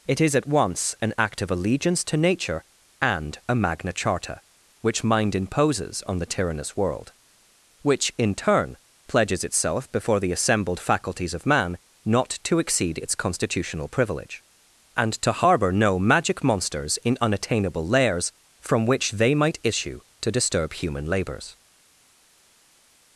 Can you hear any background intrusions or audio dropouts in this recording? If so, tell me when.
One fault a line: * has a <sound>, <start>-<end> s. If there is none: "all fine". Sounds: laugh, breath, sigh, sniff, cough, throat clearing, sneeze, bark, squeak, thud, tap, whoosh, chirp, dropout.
all fine